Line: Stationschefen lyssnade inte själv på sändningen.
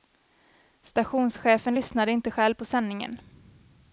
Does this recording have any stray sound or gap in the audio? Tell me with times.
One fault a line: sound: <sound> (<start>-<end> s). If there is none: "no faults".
no faults